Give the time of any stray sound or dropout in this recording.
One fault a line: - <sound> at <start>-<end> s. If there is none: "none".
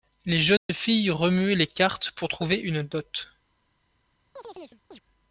- dropout at 0.6-0.7 s
- chirp at 4.4-5.0 s